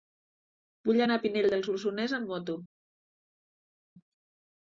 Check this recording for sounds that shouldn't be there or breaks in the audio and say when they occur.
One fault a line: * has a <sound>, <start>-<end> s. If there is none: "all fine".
all fine